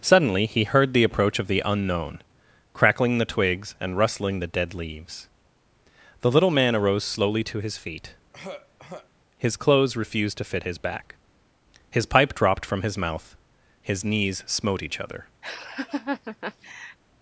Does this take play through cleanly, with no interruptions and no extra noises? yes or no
no